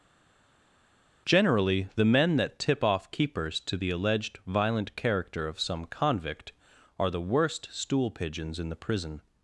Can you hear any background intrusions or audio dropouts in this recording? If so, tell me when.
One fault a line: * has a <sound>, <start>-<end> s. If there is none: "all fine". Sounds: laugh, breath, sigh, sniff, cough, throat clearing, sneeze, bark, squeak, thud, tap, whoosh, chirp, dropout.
all fine